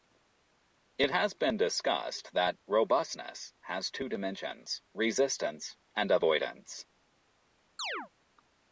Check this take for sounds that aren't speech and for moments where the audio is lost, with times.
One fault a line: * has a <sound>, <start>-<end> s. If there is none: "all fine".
* has a chirp, 7.8-8.1 s